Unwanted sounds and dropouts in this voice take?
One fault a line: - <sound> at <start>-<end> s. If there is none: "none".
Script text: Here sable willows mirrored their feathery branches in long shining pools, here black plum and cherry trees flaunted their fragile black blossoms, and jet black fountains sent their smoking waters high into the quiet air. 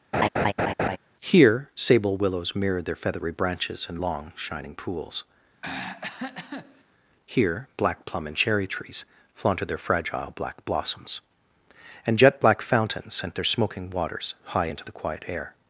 - laugh at 0.1-1.0 s
- throat clearing at 5.6-6.8 s